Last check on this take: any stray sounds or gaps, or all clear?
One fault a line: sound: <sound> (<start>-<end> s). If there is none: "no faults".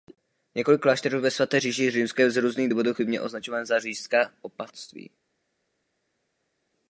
no faults